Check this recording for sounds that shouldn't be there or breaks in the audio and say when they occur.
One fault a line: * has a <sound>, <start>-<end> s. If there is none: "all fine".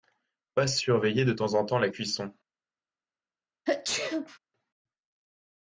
* has a sneeze, 3.7-4.4 s